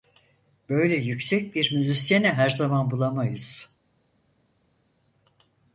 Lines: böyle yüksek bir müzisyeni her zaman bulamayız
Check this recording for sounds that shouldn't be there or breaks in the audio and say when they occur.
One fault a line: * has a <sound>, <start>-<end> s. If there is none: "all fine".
all fine